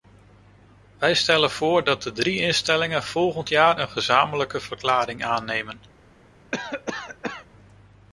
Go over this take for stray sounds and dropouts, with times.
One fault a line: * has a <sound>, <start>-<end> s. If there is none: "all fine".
* has a cough, 6.5-7.5 s